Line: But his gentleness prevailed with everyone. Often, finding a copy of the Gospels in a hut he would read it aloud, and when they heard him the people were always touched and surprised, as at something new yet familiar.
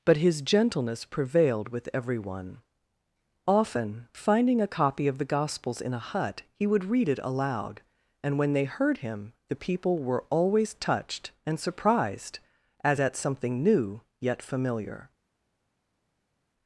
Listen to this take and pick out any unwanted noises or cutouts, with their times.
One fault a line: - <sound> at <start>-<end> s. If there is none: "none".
none